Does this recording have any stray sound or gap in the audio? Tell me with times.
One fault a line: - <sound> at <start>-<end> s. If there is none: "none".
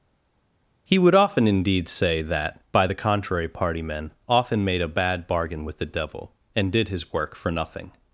none